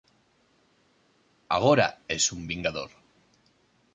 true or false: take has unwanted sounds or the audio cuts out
false